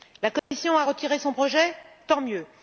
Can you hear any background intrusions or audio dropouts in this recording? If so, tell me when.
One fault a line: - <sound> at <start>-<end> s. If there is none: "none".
- dropout at 0.4-0.5 s